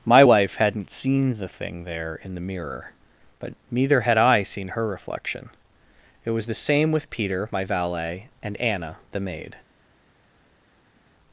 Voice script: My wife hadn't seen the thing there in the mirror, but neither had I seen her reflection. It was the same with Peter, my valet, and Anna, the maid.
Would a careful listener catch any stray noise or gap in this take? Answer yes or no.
no